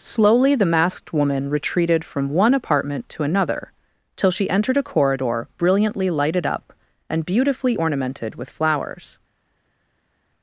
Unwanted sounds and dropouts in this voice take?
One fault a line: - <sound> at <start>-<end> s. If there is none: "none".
none